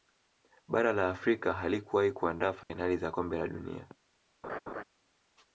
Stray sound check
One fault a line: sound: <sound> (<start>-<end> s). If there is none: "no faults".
sound: dropout (2.6-2.7 s)
sound: laugh (4.4-4.8 s)